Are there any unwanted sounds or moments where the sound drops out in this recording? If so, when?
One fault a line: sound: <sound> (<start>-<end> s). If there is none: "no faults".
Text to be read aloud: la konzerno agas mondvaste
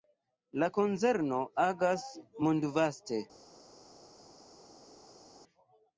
no faults